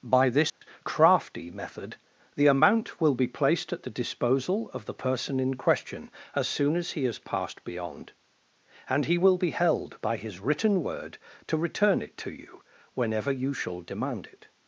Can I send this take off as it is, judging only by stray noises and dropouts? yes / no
no